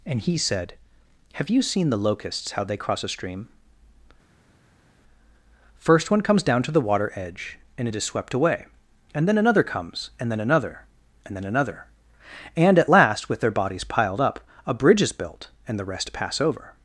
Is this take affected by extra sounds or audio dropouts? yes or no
no